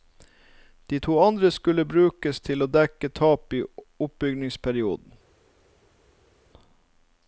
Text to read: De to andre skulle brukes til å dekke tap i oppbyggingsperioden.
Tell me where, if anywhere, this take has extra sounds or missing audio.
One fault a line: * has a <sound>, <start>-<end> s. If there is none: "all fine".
all fine